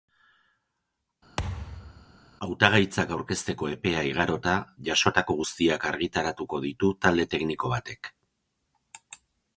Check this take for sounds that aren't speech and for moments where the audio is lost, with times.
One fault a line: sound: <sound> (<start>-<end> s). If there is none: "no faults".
sound: thud (1.4-2.2 s)